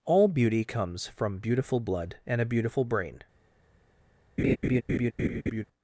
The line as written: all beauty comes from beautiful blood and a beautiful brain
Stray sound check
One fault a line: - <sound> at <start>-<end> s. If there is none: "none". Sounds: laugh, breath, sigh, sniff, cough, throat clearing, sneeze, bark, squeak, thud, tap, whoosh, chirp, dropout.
- laugh at 4.4-5.7 s